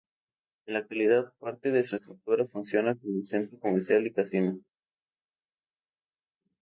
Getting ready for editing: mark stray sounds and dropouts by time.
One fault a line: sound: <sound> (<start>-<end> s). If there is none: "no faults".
no faults